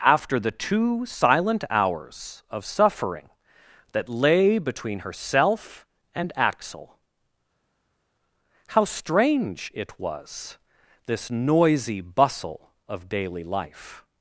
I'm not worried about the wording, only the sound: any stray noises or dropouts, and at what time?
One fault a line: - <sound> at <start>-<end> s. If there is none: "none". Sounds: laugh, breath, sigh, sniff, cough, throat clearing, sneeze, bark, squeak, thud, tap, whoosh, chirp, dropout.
none